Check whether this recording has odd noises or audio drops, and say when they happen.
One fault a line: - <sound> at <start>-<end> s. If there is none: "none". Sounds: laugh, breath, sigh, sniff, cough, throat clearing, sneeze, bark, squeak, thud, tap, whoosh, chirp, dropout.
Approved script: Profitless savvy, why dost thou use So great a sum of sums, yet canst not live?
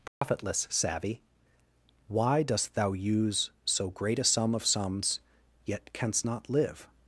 - dropout at 0.1-0.2 s